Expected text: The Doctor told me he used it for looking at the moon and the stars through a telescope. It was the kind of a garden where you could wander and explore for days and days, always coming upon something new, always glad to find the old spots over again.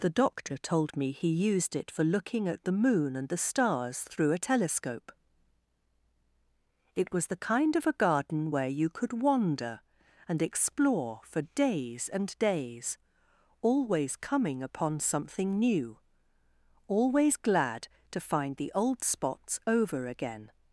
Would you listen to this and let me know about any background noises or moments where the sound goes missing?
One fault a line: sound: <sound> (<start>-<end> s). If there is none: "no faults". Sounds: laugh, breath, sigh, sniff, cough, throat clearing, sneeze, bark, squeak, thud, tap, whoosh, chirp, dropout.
no faults